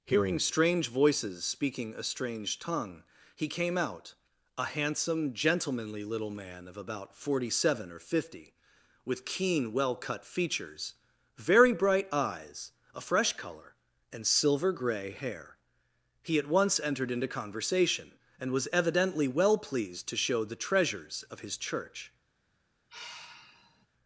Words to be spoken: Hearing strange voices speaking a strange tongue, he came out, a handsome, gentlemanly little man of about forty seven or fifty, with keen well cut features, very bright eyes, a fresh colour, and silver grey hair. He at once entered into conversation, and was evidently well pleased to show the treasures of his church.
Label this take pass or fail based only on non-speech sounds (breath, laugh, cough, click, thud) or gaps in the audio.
fail